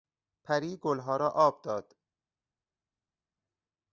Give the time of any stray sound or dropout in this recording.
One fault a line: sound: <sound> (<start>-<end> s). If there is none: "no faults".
no faults